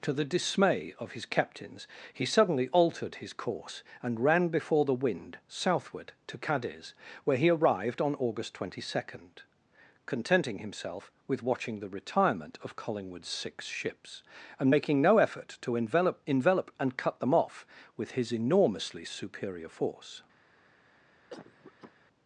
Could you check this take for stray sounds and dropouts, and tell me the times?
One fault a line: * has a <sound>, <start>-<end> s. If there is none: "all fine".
* has a cough, 21.3-21.9 s